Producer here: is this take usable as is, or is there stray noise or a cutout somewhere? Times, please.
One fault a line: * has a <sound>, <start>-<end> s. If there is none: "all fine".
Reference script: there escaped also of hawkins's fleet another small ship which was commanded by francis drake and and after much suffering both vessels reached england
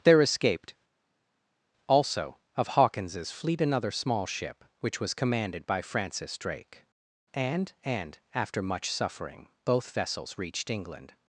all fine